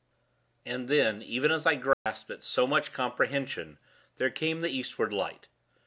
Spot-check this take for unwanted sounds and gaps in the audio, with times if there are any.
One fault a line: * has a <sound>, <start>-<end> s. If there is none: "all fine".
* has a dropout, 1.9-2.1 s